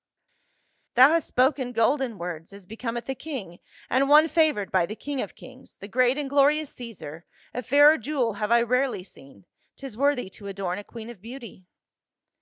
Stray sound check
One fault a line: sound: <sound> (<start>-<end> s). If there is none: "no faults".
no faults